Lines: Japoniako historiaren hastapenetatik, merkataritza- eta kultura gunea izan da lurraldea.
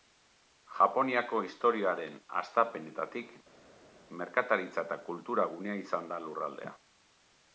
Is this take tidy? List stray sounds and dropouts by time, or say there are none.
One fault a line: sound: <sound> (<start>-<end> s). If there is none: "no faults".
no faults